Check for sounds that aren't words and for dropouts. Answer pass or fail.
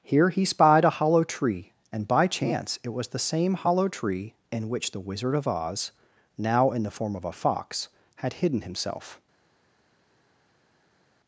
pass